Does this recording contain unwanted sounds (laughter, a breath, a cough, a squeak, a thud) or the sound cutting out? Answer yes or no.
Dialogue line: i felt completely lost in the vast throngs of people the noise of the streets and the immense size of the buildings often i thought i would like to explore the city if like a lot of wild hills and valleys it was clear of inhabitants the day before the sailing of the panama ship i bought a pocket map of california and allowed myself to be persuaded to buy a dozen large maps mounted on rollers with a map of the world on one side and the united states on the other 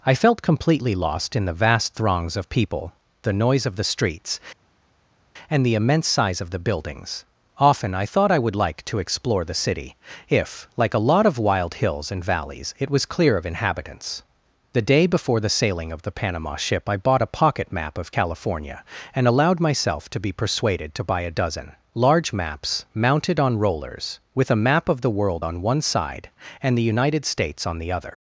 no